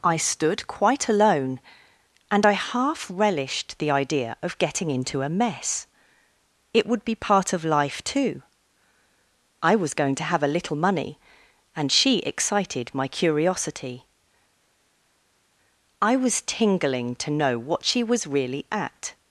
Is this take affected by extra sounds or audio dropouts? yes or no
no